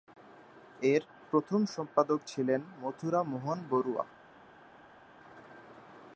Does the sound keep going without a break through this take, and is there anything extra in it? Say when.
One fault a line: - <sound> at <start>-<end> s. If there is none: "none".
none